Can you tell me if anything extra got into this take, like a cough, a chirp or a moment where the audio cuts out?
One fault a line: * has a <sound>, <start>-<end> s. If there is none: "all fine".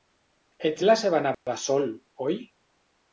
* has a dropout, 1.3-1.5 s